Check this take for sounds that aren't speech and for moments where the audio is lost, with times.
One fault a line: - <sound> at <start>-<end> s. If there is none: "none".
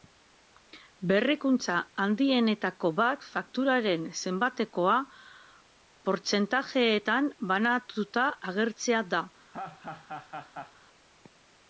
- laugh at 9.5-10.7 s